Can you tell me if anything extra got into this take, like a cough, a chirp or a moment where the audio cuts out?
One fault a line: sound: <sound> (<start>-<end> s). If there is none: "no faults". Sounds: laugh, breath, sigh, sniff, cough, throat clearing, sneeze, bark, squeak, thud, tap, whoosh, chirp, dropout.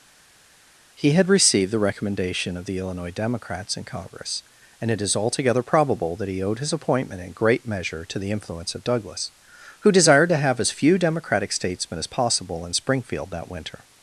no faults